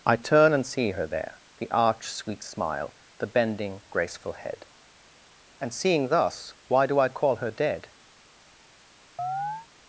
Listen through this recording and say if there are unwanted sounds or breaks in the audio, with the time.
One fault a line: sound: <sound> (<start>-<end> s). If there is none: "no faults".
sound: chirp (9.2-9.7 s)